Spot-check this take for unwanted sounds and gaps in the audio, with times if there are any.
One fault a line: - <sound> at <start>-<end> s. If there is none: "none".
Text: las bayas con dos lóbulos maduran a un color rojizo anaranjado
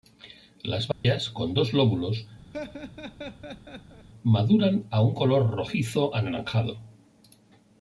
- dropout at 0.9-1.0 s
- laugh at 2.5-4.1 s